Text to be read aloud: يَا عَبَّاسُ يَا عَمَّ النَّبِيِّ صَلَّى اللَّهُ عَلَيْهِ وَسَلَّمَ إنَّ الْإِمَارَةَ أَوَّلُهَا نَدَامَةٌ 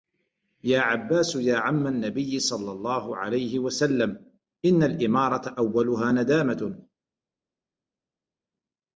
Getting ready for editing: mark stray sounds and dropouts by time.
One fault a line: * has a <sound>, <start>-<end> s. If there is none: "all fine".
all fine